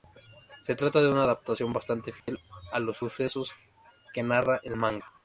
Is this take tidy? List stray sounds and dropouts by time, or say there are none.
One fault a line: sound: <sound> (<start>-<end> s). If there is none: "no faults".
sound: dropout (2.2-2.3 s)